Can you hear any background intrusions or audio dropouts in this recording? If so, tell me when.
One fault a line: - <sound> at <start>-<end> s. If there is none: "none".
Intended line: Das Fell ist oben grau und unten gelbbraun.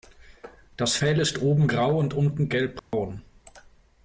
- dropout at 2.8-2.9 s